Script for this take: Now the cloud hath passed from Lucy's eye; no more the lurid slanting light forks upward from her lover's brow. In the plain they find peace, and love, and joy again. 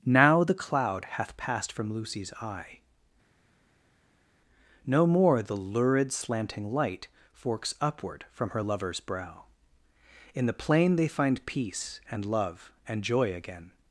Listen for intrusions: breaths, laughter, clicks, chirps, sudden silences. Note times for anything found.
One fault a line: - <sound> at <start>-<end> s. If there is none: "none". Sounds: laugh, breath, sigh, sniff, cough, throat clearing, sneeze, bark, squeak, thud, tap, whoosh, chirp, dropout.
none